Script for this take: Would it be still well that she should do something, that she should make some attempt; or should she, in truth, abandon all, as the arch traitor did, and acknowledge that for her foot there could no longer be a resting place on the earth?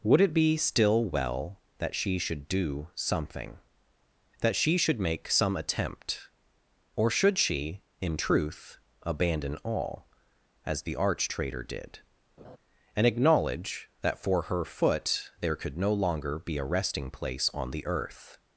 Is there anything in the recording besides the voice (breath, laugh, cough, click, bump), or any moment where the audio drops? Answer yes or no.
yes